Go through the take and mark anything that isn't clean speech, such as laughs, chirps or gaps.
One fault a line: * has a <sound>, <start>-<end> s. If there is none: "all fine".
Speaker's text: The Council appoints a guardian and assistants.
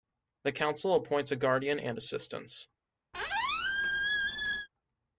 * has a squeak, 3.1-4.7 s